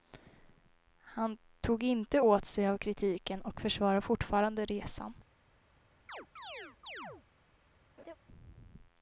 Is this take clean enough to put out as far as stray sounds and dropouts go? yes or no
no